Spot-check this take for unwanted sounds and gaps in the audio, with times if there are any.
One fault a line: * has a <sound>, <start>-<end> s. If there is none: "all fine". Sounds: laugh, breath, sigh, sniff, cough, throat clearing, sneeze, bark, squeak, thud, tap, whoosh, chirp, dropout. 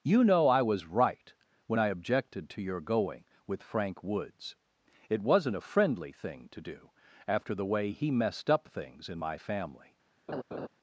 * has a laugh, 10.3-10.7 s